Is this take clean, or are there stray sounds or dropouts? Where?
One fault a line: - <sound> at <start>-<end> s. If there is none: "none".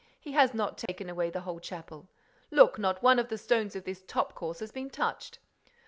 - dropout at 0.9-0.9 s